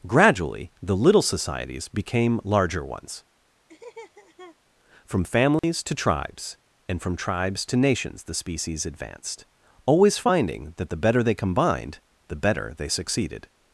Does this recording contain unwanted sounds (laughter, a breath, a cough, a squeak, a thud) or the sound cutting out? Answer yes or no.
yes